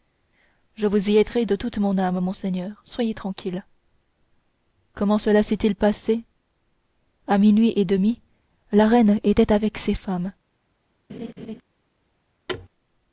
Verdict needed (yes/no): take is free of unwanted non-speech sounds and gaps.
no